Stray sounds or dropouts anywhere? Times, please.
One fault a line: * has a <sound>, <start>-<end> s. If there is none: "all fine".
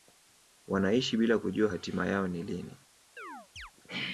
* has a chirp, 3.2-3.7 s